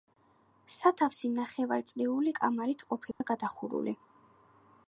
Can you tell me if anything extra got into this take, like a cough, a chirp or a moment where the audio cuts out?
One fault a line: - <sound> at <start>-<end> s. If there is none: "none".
- dropout at 3.1-3.2 s